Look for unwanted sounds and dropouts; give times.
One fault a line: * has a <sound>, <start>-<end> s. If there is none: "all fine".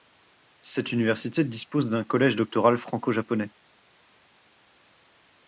all fine